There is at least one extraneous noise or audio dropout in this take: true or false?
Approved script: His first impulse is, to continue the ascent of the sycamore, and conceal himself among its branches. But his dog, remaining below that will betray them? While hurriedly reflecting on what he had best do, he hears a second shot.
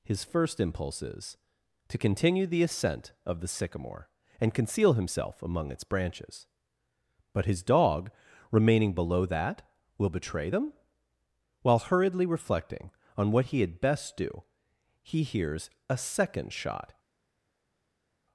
false